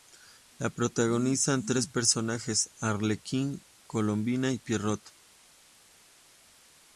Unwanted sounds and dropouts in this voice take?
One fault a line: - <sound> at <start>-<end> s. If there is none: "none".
none